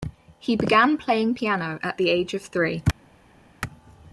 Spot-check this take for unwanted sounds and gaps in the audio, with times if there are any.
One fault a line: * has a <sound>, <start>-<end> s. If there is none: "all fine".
all fine